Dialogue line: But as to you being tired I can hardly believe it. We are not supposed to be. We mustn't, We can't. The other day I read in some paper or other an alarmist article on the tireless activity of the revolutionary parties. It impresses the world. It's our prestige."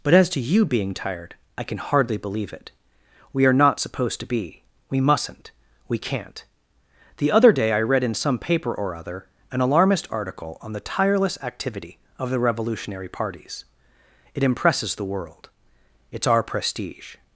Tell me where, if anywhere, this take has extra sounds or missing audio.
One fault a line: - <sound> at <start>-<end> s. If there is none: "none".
none